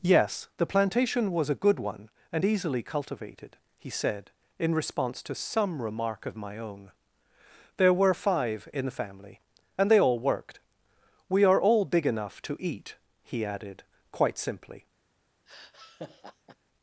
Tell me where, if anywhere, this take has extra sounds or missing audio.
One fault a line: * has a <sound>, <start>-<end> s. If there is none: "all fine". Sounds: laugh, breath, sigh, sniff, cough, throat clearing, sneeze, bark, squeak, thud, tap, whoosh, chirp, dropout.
* has a laugh, 15.5-16.6 s